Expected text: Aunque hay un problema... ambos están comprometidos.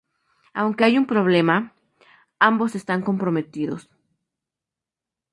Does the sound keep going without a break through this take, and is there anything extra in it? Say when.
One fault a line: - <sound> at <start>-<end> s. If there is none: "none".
none